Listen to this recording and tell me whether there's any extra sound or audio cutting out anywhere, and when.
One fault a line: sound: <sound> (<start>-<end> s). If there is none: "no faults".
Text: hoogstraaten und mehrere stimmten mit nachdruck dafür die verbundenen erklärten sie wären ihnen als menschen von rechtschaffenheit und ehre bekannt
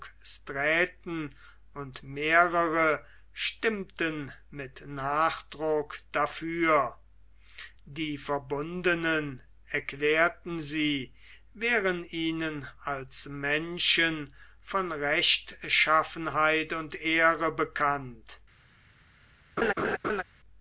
sound: laugh (19.6-20.2 s)